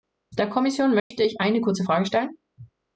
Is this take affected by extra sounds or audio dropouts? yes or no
yes